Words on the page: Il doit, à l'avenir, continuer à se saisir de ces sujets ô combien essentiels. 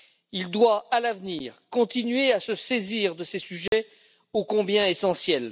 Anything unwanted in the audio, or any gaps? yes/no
yes